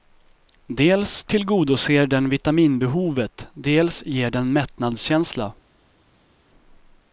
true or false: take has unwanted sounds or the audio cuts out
false